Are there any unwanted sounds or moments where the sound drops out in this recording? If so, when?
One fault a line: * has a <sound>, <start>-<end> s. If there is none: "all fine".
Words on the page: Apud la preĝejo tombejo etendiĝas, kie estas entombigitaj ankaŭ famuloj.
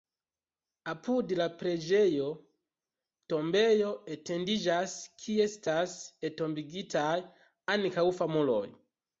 all fine